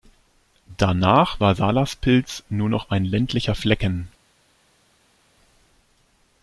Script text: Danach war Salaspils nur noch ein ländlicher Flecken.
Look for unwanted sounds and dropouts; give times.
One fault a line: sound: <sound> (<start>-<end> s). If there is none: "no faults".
no faults